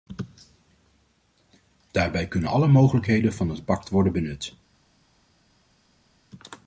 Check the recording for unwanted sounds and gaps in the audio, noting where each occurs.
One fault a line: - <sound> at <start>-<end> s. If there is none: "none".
none